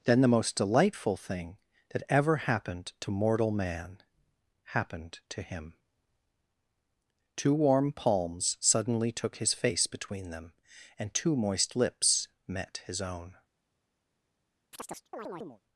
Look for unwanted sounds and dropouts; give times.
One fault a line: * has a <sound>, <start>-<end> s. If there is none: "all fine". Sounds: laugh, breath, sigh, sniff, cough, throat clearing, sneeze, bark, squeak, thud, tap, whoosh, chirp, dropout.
* has a chirp, 14.7-15.6 s